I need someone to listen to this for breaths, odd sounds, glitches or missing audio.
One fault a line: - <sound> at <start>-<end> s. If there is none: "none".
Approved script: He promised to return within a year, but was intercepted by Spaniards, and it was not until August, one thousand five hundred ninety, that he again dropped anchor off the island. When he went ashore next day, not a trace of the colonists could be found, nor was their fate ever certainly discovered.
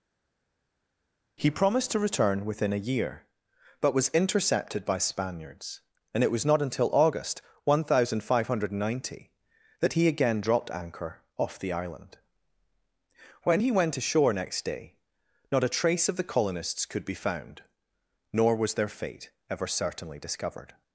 none